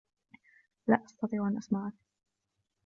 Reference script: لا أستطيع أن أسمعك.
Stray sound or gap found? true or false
false